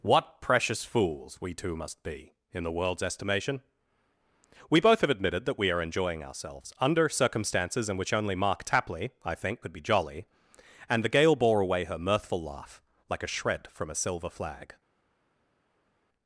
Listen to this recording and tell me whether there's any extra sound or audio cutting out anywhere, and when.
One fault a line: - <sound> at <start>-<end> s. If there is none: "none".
none